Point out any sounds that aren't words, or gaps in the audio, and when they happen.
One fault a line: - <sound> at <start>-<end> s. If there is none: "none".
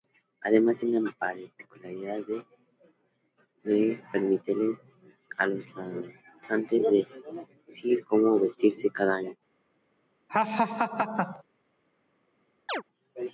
- laugh at 10.3-11.4 s
- chirp at 12.7-12.8 s